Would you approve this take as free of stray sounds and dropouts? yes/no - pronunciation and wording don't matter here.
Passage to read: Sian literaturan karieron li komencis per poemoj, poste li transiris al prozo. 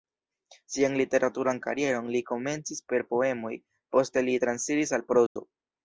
no